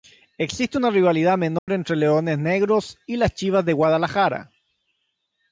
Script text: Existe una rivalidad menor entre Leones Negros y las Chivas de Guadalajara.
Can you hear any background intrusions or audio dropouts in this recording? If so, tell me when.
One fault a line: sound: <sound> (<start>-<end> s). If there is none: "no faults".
sound: dropout (1.6-1.7 s)